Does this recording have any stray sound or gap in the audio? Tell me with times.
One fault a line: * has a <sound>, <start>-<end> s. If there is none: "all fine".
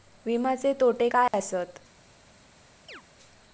* has a dropout, 1.3-1.3 s
* has a chirp, 2.9-3.0 s